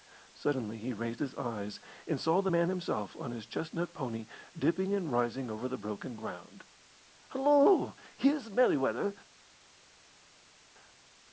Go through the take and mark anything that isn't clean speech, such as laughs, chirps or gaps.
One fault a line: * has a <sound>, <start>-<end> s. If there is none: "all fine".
all fine